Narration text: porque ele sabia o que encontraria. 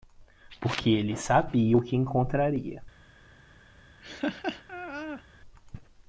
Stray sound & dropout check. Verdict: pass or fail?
fail